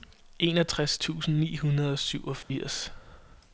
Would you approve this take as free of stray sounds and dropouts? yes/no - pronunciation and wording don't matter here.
no